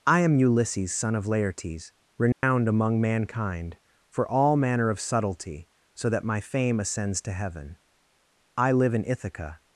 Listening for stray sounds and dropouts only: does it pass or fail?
fail